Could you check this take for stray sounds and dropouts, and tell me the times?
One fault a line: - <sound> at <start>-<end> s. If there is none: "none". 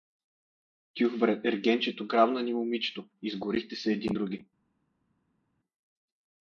none